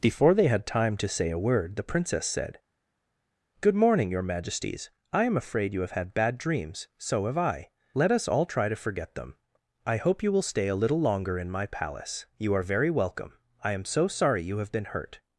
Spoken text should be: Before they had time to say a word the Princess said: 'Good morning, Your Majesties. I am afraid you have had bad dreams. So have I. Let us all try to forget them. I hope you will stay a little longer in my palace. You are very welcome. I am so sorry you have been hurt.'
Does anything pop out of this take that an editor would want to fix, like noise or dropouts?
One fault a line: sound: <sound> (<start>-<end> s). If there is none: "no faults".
no faults